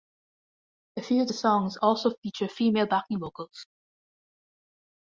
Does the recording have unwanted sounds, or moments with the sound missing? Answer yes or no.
no